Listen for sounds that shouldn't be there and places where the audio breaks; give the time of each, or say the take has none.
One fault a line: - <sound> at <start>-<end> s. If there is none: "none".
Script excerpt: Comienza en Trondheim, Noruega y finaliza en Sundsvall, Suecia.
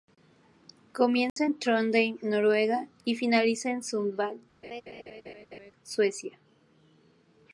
- dropout at 1.3-1.4 s
- laugh at 4.6-5.7 s